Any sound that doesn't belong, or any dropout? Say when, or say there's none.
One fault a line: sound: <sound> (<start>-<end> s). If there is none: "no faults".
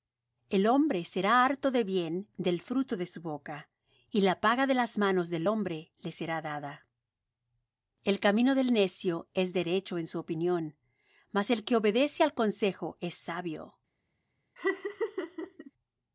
sound: laugh (14.6-15.7 s)